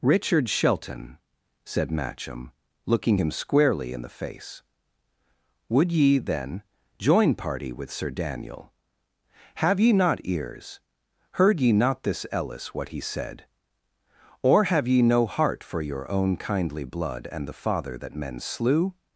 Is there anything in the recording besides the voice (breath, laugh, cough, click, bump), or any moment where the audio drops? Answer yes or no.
no